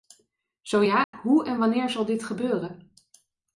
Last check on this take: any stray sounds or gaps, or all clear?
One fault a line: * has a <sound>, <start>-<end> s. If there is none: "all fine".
* has a dropout, 1.0-1.1 s